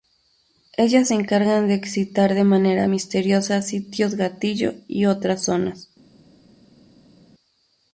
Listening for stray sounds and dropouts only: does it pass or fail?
pass